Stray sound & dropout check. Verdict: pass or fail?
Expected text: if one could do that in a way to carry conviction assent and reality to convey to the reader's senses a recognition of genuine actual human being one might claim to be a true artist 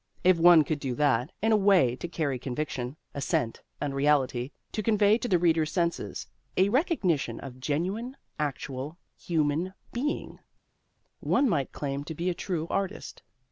pass